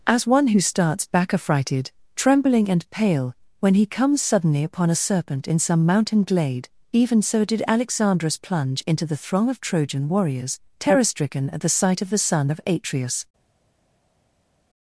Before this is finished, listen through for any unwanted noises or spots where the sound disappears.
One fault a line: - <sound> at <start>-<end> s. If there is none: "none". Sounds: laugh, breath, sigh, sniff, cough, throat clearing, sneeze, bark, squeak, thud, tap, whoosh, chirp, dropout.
none